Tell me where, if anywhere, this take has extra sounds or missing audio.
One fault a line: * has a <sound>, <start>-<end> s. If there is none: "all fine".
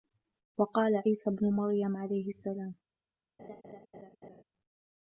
* has a laugh, 3.4-4.4 s